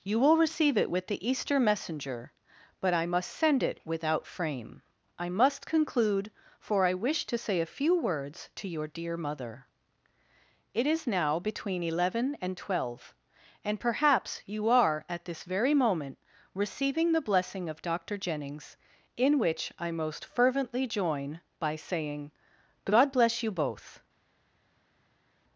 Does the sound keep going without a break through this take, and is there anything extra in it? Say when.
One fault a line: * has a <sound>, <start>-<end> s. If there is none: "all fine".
all fine